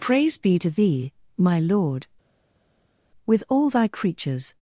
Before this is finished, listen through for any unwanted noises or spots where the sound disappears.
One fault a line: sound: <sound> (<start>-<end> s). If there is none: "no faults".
no faults